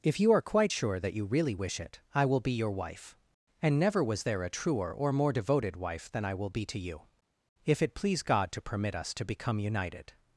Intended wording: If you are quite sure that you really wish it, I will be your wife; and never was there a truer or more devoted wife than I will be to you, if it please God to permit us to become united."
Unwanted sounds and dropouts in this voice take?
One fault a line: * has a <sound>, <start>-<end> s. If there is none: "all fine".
all fine